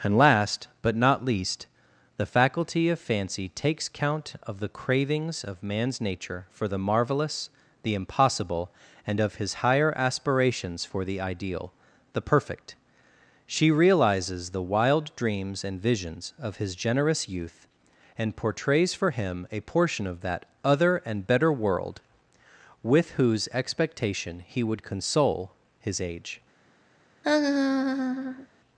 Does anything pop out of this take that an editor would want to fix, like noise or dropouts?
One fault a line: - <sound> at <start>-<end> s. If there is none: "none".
- laugh at 27.2-28.5 s